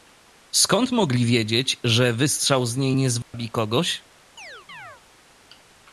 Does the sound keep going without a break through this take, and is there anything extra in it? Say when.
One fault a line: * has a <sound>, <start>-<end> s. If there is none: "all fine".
* has a dropout, 3.2-3.3 s
* has a chirp, 4.4-5.0 s